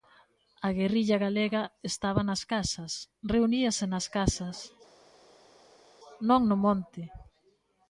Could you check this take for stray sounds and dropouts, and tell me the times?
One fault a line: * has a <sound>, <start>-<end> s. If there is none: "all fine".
all fine